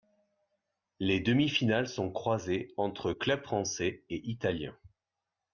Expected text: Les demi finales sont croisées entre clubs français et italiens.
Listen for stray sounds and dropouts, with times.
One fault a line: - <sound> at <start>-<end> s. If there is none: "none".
none